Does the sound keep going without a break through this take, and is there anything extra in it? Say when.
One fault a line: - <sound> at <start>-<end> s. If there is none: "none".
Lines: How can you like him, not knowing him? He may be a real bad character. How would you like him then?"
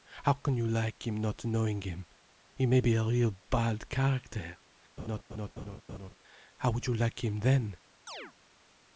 - laugh at 5.0-6.1 s
- chirp at 8.1-8.3 s